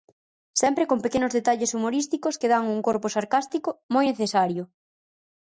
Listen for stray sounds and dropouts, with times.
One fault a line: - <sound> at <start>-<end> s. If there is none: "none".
none